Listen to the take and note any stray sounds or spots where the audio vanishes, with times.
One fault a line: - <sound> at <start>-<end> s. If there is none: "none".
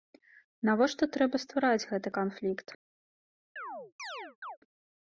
- chirp at 3.6-4.6 s